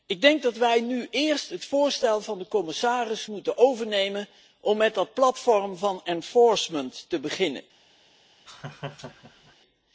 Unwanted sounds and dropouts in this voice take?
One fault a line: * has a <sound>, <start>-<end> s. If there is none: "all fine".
* has a laugh, 8.5-9.6 s